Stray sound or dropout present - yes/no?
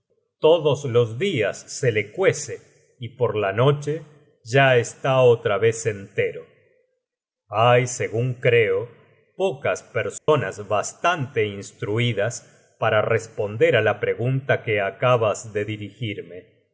yes